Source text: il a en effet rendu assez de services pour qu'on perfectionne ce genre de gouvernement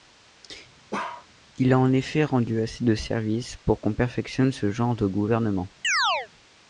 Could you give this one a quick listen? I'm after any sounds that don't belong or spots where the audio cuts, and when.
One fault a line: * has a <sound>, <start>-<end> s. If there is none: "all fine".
* has a bark, 0.9-1.3 s
* has a chirp, 5.8-6.3 s